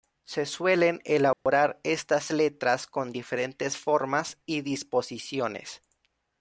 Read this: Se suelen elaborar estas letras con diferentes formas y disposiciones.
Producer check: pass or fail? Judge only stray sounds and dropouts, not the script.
fail